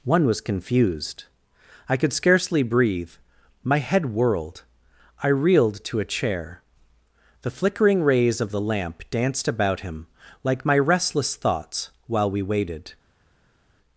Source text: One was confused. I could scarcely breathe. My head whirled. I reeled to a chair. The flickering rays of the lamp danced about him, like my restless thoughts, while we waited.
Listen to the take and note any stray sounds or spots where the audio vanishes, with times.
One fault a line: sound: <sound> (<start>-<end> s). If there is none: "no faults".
no faults